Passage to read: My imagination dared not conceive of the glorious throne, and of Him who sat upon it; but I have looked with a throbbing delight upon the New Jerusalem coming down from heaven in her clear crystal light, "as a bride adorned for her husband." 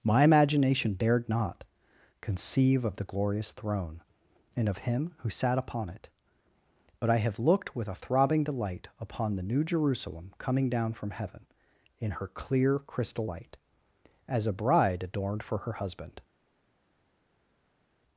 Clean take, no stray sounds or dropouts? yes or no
yes